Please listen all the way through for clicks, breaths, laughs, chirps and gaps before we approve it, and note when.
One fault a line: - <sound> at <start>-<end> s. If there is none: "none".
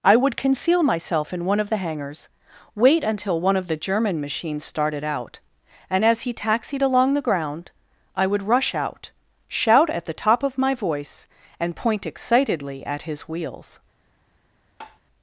- tap at 14.8-15.0 s